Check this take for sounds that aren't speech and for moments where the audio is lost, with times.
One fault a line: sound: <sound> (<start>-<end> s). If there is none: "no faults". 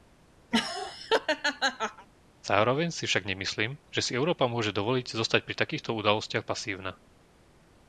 sound: laugh (0.5-2.1 s)